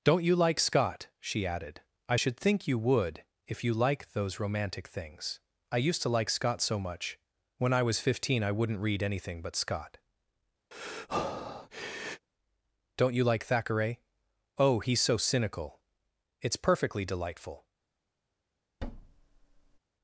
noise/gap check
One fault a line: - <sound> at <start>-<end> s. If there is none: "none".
- breath at 10.7-12.3 s
- thud at 18.8-19.8 s